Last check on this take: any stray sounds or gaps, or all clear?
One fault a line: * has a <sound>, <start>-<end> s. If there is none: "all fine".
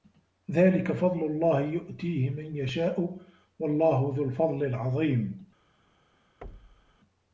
* has a thud, 6.4-7.0 s